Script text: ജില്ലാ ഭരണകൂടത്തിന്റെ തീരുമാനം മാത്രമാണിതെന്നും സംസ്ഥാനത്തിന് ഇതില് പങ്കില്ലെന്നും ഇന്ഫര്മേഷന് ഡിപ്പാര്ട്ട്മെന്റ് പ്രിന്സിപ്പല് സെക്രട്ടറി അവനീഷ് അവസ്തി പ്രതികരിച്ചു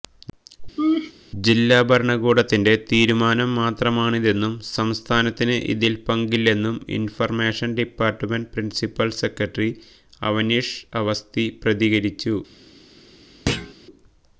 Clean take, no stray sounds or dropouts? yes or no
no